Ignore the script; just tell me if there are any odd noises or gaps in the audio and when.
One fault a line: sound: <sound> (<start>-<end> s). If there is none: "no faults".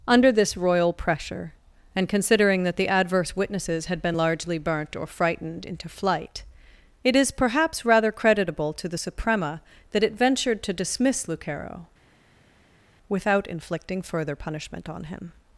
no faults